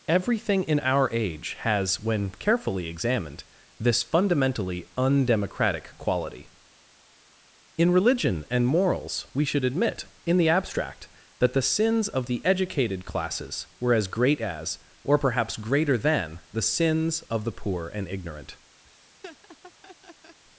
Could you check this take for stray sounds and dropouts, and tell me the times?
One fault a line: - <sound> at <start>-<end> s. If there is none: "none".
- laugh at 18.8-20.4 s